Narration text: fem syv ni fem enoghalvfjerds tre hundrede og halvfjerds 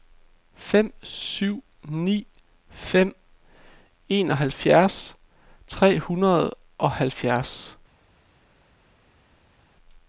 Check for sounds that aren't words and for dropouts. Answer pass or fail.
pass